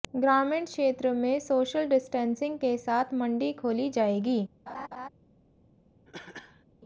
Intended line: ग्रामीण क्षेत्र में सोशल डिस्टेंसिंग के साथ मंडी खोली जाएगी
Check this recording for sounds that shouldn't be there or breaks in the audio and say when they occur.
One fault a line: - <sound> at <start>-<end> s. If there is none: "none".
- laugh at 4.7-5.1 s
- cough at 6.1-6.6 s